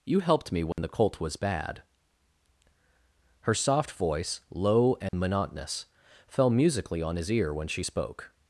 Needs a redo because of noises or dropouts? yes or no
yes